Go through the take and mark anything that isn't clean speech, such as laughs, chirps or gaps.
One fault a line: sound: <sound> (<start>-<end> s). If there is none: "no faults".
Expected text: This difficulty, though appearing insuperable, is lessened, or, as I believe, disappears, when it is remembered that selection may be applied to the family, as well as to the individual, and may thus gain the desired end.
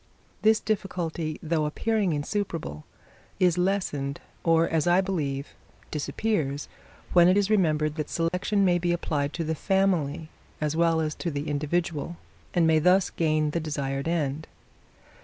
sound: dropout (8.3-8.3 s)